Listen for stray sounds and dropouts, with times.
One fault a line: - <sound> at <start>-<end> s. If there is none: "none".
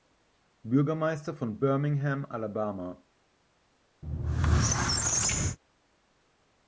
- squeak at 4.0-5.6 s